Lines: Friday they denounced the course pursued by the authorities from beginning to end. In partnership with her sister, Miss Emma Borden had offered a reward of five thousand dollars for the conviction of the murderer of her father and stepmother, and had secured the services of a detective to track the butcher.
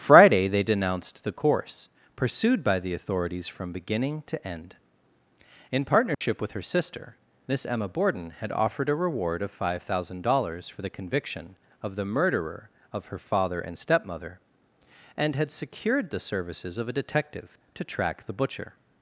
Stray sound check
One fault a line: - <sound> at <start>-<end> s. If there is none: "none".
- dropout at 6.1-6.2 s